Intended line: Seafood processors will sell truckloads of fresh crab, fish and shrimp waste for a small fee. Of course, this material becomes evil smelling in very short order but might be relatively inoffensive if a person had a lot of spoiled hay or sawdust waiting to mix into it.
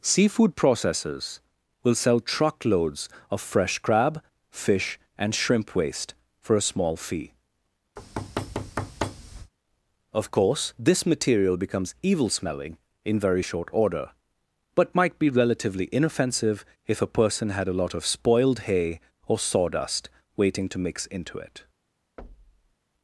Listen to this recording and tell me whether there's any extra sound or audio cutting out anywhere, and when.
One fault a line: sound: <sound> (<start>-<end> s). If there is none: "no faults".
sound: thud (8.0-9.5 s)
sound: thud (22.2-22.7 s)